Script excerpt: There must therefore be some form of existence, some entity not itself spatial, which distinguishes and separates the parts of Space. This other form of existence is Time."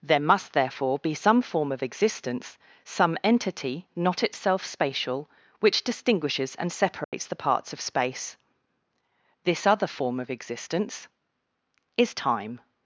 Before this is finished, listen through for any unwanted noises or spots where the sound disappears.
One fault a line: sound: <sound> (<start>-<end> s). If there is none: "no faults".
sound: dropout (7.0-7.1 s)